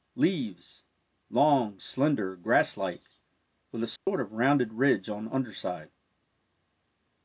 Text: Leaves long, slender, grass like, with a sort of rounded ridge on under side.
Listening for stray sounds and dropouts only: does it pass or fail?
fail